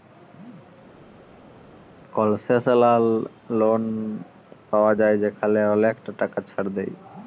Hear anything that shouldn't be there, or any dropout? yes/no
no